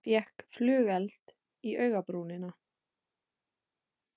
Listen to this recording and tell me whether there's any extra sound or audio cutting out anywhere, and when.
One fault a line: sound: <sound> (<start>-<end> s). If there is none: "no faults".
no faults